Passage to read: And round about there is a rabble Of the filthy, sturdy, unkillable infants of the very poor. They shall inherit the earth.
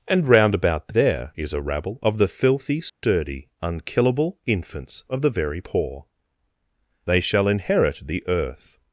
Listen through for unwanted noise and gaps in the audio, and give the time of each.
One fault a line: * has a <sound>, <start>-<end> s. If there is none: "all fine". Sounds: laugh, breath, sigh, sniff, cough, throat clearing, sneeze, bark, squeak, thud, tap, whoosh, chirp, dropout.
* has a dropout, 2.9-3.0 s